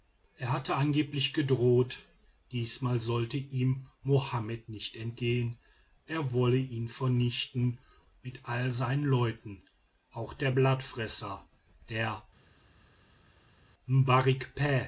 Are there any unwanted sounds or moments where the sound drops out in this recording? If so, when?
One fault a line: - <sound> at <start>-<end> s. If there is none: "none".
none